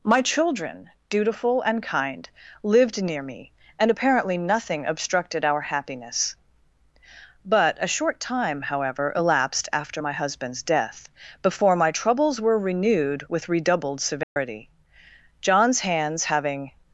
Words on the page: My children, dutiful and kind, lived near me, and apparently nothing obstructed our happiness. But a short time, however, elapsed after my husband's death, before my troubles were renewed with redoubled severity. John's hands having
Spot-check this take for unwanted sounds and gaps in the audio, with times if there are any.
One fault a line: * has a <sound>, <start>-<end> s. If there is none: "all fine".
* has a dropout, 14.2-14.4 s